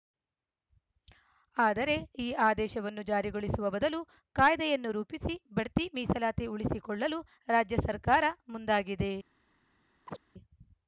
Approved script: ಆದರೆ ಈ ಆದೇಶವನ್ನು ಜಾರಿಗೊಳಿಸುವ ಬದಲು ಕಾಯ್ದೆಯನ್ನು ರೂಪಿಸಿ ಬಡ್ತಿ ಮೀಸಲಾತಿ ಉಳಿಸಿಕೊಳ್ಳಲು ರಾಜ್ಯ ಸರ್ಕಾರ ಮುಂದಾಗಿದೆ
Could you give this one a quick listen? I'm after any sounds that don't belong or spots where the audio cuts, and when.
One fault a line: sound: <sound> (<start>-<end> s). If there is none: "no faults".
sound: chirp (10.1-10.2 s)